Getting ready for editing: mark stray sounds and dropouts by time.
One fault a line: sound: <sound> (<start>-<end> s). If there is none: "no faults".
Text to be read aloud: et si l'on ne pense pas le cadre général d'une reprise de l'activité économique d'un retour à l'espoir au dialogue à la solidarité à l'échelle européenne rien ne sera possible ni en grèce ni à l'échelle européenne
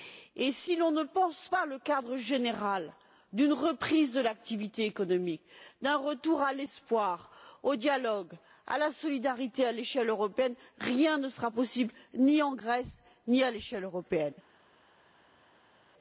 no faults